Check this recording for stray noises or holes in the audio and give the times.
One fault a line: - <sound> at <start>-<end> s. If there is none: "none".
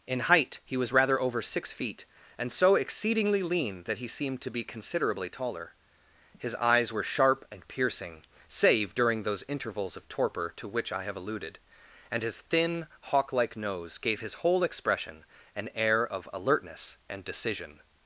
none